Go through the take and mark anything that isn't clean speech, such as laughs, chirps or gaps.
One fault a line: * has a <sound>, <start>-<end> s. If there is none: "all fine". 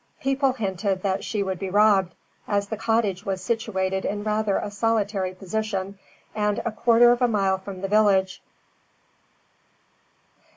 all fine